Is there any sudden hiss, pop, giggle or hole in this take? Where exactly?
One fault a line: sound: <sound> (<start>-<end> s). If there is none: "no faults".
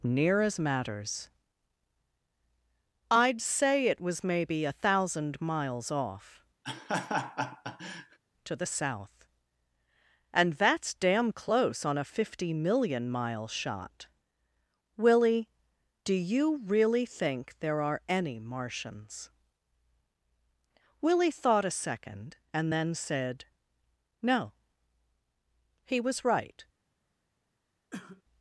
sound: laugh (6.6-8.2 s)
sound: cough (27.9-28.2 s)